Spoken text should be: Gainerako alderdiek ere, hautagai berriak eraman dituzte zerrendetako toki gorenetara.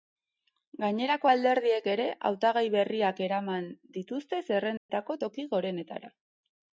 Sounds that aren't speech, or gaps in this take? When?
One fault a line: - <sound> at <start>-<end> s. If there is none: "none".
- dropout at 4.8-4.9 s